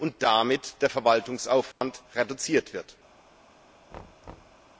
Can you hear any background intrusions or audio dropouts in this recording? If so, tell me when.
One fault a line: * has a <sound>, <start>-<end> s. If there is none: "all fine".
* has a dropout, 1.7-1.8 s
* has a thud, 3.9-4.7 s